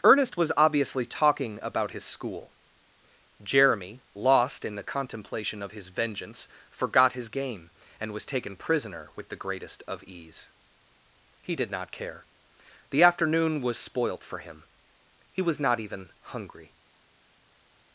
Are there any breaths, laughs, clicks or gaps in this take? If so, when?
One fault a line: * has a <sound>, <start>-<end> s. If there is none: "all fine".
all fine